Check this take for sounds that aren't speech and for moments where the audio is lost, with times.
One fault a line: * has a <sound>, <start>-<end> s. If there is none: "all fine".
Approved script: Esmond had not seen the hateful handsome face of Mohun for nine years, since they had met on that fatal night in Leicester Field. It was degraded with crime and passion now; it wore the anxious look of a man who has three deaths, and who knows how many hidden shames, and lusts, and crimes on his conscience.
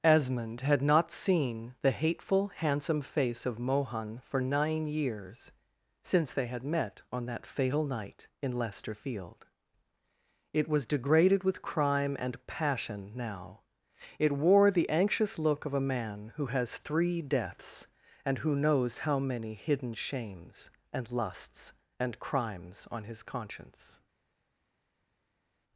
all fine